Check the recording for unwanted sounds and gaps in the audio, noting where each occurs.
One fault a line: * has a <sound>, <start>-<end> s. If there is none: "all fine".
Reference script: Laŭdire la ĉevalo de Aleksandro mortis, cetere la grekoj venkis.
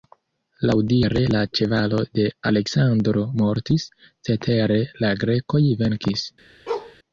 * has a bark, 6.7-7.0 s